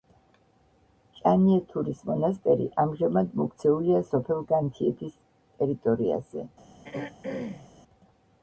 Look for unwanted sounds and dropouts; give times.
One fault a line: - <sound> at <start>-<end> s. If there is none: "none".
- throat clearing at 6.8-7.7 s